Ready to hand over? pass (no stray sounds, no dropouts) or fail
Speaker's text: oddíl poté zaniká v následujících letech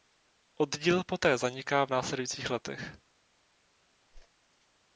fail